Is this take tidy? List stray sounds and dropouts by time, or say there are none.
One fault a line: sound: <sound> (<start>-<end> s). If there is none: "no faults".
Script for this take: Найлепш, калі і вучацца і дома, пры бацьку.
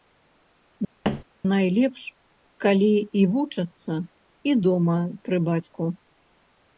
sound: thud (1.0-1.2 s)